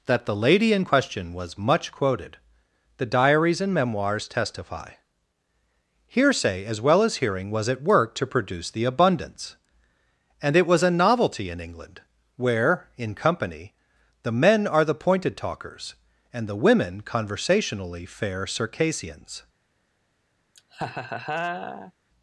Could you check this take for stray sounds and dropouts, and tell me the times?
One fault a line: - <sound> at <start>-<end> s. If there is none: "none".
- laugh at 20.5-21.9 s